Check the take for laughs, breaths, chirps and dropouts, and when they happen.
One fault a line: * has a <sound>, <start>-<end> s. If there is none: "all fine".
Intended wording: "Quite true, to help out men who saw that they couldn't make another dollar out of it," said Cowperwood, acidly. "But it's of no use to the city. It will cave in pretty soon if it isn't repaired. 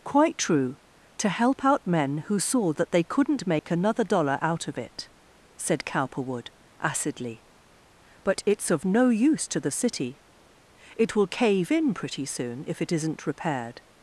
* has a dropout, 3.6-3.6 s